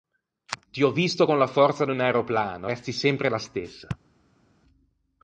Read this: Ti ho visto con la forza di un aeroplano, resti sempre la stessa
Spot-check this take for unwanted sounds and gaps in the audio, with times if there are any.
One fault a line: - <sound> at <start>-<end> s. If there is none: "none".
none